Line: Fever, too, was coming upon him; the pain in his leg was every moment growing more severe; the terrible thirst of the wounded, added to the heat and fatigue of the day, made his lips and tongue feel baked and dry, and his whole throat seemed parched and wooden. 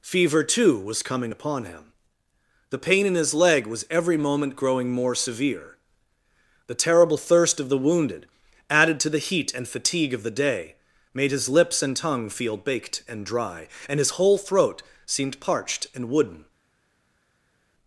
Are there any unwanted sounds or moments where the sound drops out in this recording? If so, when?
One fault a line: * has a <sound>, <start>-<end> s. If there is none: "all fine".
all fine